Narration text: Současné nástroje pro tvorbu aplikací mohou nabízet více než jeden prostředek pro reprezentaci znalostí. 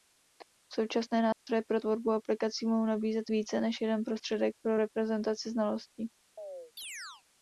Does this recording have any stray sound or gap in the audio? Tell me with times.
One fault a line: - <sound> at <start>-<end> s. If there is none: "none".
- dropout at 1.3-1.5 s
- chirp at 6.4-7.2 s